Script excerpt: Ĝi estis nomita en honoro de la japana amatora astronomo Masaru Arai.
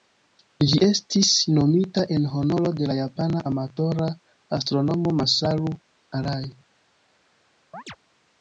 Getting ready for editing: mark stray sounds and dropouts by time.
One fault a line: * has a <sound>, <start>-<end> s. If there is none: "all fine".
* has a chirp, 7.7-8.0 s